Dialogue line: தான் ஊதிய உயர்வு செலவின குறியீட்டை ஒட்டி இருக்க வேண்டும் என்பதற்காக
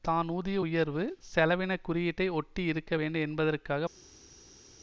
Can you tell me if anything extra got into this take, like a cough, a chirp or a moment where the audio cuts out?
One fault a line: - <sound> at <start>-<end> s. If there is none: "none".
none